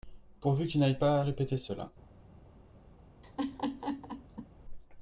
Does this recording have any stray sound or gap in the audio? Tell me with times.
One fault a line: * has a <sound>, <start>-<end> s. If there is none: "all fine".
* has a laugh, 3.2-4.5 s